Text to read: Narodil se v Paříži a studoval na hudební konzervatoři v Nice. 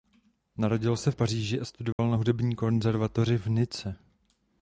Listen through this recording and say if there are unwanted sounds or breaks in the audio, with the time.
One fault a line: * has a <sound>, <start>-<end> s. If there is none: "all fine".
* has a dropout, 1.9-2.0 s